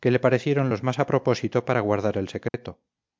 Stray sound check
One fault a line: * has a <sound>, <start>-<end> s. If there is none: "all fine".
* has a dropout, 2.5-2.5 s